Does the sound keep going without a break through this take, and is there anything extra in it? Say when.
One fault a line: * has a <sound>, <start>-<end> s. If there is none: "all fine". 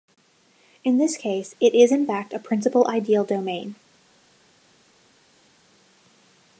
all fine